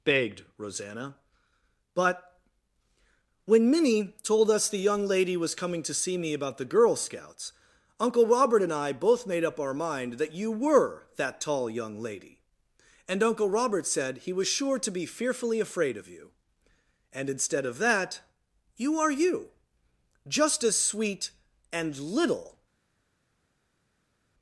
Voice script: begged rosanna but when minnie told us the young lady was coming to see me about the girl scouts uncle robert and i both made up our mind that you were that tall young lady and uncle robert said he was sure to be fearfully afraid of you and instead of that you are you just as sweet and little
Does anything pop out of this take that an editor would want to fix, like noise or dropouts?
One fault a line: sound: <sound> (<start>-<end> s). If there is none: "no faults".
no faults